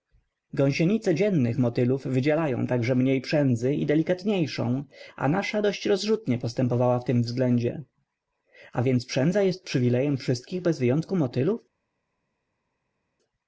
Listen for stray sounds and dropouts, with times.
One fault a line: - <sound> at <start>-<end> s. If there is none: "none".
none